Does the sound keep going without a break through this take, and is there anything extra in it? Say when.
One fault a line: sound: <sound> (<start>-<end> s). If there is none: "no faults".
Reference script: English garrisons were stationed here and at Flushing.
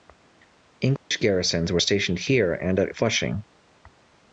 sound: dropout (1.0-1.1 s)